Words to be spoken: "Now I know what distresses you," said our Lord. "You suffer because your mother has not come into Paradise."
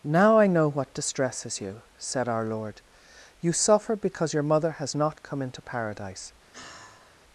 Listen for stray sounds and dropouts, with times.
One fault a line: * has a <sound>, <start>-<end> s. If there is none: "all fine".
* has a sigh, 6.5-7.2 s